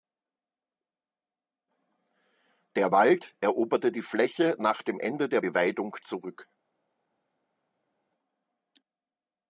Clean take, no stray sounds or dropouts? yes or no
yes